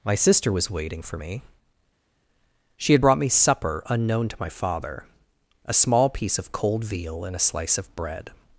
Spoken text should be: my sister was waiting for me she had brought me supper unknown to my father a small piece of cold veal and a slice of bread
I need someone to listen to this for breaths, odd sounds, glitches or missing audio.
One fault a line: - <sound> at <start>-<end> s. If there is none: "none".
none